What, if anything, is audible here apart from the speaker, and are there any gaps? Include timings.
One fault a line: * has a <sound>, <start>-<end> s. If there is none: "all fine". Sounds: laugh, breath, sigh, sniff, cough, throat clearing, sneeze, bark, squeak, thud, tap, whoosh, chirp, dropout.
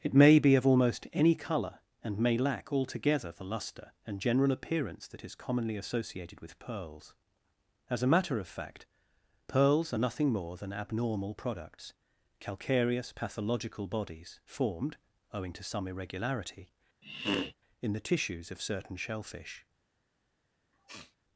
* has a sniff, 17.0-17.5 s
* has a sniff, 20.7-21.2 s